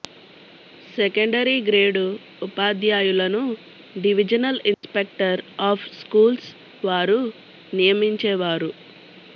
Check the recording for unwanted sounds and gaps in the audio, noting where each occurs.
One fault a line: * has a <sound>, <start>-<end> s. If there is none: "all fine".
* has a dropout, 4.7-4.8 s